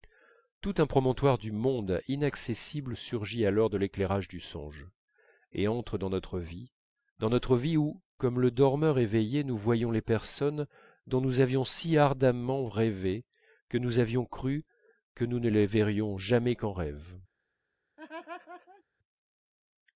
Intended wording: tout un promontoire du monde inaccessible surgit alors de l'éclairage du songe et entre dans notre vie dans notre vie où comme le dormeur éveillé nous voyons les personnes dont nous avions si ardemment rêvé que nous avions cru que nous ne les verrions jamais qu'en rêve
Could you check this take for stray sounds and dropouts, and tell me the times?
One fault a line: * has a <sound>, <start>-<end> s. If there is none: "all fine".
* has a laugh, 18.0-18.8 s